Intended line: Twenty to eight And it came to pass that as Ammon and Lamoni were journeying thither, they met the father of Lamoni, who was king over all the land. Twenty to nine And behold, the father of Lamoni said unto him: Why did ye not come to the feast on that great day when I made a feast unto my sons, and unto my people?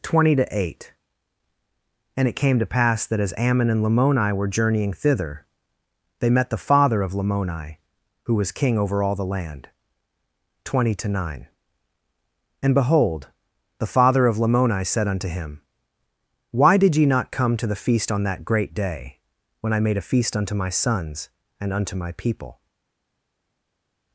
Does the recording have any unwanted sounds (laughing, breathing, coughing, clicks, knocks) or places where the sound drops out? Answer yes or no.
no